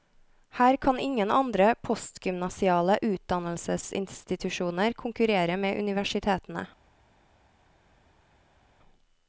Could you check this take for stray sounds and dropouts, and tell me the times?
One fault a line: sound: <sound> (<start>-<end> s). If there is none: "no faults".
no faults